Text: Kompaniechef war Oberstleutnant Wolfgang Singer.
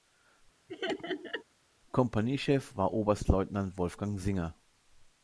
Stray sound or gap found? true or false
true